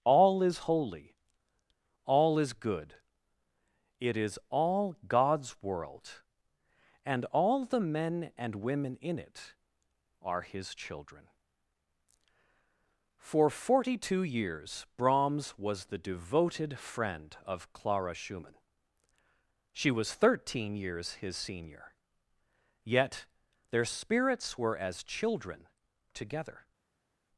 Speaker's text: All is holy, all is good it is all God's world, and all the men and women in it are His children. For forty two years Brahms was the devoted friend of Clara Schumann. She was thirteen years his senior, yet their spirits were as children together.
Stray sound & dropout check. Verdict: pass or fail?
pass